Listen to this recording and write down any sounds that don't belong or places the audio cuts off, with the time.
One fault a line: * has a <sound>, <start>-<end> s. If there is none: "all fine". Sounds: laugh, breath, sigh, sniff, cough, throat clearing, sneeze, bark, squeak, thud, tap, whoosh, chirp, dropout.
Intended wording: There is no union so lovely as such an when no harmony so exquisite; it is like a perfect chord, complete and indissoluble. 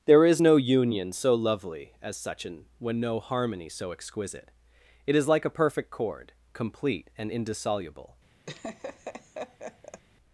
* has a laugh, 8.5-10.0 s